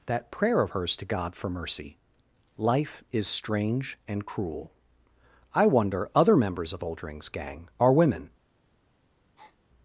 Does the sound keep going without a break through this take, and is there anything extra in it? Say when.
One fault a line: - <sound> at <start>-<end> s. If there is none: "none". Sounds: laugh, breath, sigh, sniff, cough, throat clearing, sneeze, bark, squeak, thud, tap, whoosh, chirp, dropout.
- breath at 9.4-9.6 s